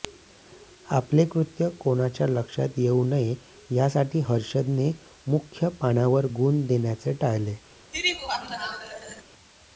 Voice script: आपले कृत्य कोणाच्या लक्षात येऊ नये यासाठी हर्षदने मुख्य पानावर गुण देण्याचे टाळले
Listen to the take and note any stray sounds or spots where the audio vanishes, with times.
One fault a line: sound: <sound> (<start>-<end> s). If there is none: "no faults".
sound: laugh (7.9-9.2 s)